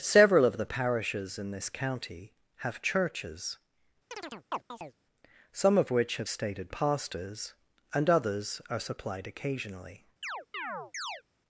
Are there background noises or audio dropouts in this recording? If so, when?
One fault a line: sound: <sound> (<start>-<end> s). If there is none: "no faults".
sound: chirp (4.1-4.9 s)
sound: chirp (10.2-11.2 s)